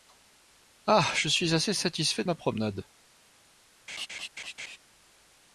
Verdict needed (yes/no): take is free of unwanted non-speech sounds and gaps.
no